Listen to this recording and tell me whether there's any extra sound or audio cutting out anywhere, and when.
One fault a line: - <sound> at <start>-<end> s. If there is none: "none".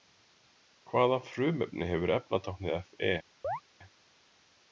- chirp at 3.4-3.6 s